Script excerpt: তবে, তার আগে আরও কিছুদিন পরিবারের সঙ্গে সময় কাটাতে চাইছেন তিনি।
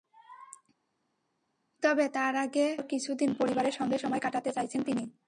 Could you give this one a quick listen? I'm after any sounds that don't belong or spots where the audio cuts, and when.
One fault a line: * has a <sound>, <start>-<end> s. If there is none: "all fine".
all fine